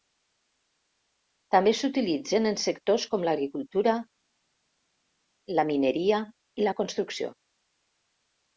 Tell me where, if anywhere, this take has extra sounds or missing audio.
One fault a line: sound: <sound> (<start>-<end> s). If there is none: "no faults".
no faults